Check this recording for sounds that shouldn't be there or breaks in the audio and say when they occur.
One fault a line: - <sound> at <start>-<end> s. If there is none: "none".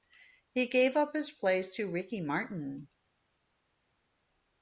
none